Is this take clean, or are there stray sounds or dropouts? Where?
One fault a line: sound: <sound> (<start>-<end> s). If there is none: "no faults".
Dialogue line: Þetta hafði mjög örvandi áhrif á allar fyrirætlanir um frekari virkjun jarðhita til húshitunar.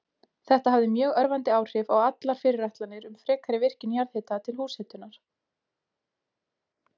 no faults